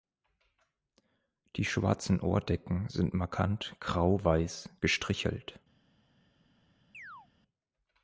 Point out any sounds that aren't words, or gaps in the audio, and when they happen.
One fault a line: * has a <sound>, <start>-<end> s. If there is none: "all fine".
* has a chirp, 6.9-7.3 s